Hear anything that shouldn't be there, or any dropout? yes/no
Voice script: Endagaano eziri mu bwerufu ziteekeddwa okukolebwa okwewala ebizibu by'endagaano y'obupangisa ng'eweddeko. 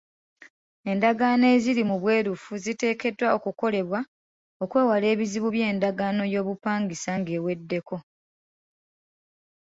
no